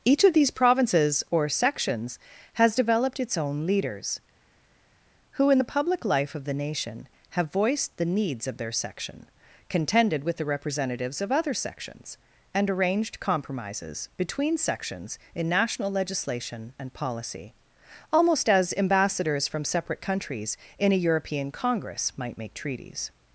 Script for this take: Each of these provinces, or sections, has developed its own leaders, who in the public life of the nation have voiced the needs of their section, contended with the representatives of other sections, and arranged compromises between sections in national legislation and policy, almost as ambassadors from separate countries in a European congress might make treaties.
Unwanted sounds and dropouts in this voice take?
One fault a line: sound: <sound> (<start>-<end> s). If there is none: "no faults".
no faults